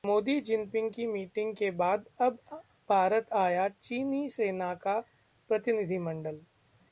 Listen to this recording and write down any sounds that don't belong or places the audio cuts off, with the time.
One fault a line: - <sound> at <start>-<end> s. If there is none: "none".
none